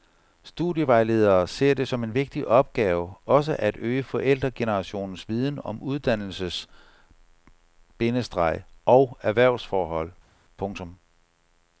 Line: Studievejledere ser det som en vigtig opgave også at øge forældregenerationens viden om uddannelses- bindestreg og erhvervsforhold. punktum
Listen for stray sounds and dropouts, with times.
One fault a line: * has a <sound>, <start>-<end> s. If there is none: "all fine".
all fine